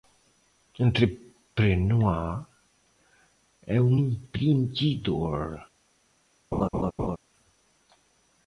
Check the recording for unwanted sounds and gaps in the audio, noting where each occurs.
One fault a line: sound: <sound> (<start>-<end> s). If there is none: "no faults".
sound: laugh (6.5-7.2 s)